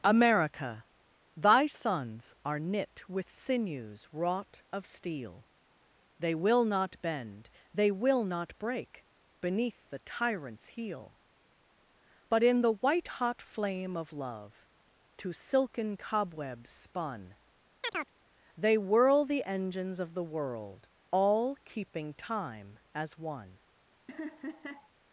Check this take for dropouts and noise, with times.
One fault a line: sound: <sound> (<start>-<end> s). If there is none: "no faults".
sound: chirp (17.8-18.1 s)
sound: laugh (24.1-24.9 s)